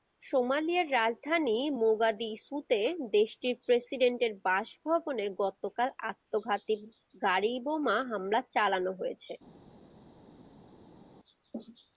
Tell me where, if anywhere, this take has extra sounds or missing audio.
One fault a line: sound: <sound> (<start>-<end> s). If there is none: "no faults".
no faults